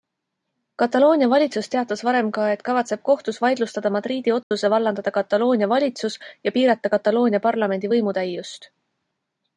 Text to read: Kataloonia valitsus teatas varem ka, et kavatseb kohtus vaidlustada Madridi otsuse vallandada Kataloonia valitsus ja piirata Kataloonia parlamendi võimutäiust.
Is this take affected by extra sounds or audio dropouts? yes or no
yes